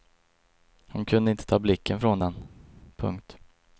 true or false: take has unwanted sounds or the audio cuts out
false